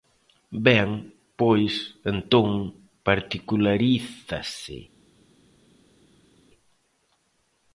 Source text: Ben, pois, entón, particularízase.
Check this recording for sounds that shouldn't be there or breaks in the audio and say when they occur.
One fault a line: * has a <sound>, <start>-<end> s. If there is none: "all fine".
all fine